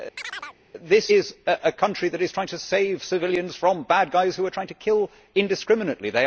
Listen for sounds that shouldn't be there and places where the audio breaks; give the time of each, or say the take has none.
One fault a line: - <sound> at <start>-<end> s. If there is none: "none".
- chirp at 0.2-0.6 s